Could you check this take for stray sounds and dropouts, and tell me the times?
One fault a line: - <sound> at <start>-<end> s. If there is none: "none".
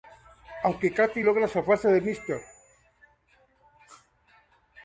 none